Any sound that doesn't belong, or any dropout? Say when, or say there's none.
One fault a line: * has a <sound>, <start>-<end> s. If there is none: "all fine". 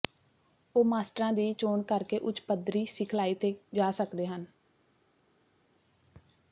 all fine